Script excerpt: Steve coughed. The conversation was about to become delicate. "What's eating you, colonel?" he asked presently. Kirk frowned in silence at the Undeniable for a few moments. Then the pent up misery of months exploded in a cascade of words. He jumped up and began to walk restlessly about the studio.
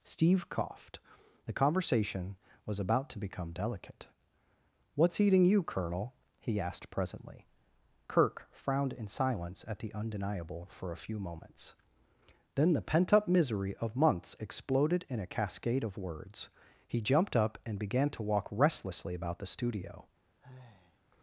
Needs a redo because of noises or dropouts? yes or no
yes